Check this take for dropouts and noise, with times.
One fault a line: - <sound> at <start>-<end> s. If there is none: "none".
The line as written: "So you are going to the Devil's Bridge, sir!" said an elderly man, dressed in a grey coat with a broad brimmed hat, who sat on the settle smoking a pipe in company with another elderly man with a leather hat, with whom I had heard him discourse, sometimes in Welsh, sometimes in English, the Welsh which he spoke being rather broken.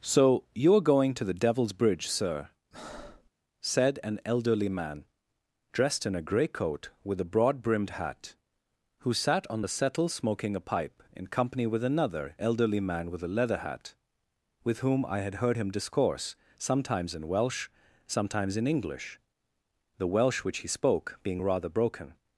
- breath at 2.7-3.3 s